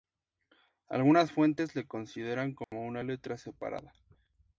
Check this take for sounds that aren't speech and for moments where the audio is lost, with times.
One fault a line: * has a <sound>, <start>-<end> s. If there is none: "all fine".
* has a dropout, 2.6-2.7 s